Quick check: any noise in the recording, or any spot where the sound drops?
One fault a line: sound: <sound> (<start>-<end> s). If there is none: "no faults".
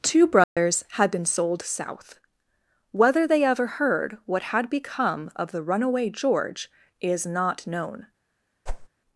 sound: dropout (0.4-0.6 s)
sound: whoosh (8.7-8.9 s)